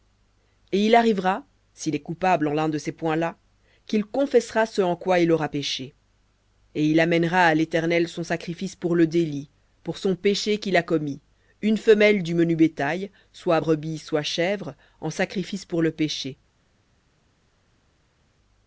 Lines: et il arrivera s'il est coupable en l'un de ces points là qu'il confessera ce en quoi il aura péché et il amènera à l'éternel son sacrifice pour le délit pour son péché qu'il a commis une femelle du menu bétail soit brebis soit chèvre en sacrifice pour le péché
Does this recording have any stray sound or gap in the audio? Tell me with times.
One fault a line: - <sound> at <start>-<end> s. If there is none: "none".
none